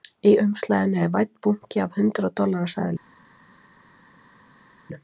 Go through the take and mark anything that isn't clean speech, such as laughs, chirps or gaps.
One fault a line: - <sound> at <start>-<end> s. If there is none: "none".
none